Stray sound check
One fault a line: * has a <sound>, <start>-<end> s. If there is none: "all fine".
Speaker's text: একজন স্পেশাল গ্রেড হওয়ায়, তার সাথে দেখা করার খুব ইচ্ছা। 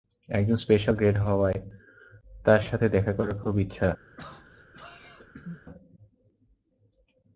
* has a throat clearing, 4.1-5.6 s